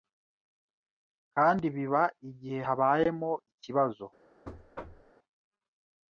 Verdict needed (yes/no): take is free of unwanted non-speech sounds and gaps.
no